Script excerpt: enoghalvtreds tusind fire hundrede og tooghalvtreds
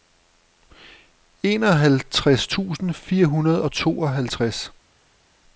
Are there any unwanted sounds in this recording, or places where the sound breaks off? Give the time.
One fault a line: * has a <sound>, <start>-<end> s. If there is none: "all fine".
all fine